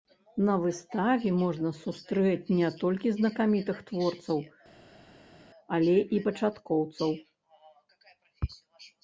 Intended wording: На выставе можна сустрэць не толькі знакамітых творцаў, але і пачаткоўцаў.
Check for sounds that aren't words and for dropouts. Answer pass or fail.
pass